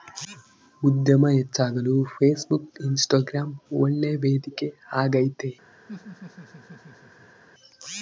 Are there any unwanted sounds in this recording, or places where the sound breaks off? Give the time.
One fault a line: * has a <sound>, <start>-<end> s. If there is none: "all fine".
* has a laugh, 5.9-7.4 s